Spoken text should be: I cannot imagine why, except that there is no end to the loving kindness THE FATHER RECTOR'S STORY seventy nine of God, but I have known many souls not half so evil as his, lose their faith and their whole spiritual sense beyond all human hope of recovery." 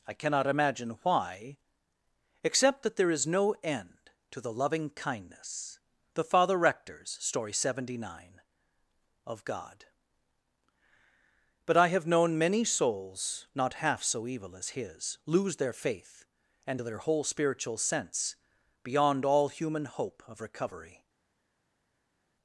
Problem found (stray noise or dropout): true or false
false